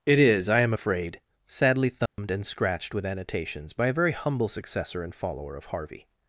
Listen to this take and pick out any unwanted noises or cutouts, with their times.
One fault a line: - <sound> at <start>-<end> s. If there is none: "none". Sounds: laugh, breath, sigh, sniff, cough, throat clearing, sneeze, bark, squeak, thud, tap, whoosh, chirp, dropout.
- dropout at 2.1-2.2 s